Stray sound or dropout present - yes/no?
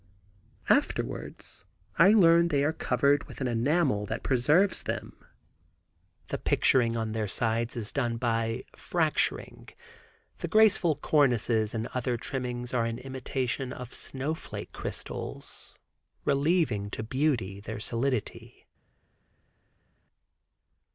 no